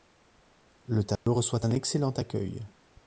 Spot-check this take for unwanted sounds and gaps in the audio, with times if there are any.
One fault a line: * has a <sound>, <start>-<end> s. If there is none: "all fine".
* has a dropout, 1.2-1.3 s